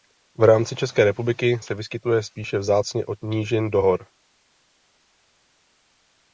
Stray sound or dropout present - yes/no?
no